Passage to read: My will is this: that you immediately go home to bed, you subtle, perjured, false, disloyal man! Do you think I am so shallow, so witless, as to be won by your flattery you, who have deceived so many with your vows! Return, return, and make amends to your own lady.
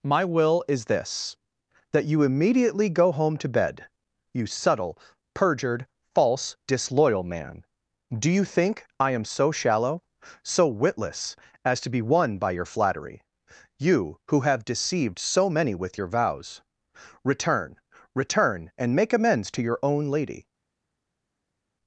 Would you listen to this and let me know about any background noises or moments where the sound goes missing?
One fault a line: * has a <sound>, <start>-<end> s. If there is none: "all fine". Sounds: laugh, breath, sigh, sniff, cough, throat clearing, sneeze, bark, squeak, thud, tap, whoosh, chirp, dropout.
all fine